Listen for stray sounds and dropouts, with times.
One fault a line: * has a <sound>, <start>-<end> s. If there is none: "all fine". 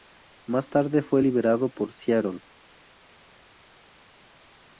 all fine